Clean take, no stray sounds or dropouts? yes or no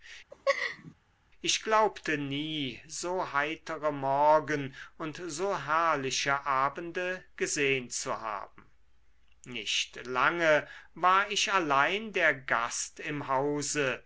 no